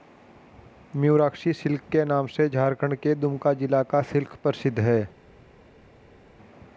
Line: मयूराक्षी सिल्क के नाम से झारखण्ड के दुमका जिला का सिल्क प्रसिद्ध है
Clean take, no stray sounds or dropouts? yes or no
yes